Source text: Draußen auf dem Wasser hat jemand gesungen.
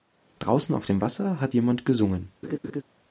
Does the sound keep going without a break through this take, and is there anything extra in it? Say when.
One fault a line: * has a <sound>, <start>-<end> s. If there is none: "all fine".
* has a laugh, 2.4-2.8 s